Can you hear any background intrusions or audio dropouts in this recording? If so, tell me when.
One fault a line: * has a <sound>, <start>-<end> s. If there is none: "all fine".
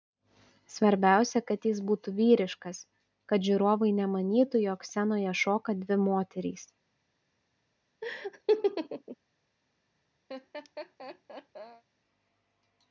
* has a laugh, 8.0-9.2 s
* has a laugh, 10.3-11.8 s